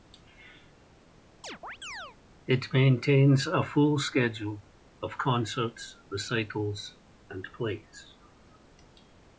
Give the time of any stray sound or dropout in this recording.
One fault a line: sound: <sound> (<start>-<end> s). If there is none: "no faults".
sound: chirp (1.4-2.2 s)